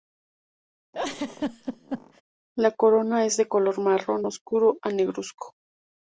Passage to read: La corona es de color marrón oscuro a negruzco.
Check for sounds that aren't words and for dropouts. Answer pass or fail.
fail